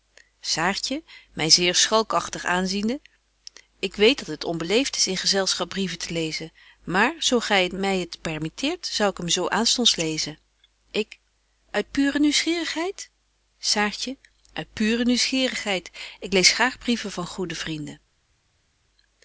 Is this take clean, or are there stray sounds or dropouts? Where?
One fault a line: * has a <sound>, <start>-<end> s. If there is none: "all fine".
all fine